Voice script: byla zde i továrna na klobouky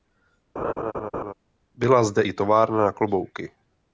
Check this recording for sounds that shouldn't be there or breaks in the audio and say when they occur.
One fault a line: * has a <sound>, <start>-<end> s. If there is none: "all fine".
* has a laugh, 0.6-1.3 s